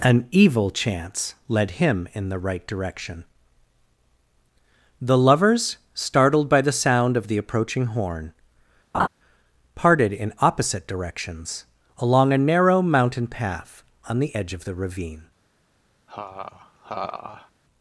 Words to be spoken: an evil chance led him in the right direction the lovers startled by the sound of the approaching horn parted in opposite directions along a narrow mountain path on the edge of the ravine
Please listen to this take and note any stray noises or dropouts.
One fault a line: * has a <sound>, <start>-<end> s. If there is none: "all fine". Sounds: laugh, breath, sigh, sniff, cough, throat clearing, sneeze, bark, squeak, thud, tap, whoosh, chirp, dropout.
* has a laugh, 8.9-9.1 s
* has a laugh, 16.1-17.5 s